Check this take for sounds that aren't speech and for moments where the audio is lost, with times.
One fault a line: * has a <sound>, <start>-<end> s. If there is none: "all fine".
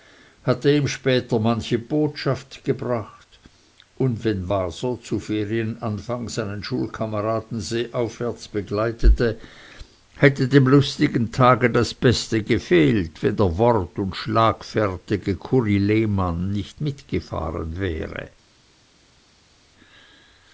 all fine